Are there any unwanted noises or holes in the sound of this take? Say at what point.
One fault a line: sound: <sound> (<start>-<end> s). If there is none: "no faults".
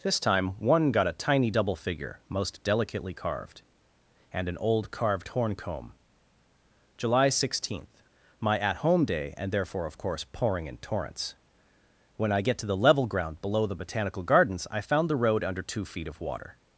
no faults